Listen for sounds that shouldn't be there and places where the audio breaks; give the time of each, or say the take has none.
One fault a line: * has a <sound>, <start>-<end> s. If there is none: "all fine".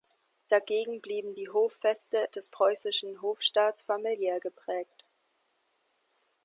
all fine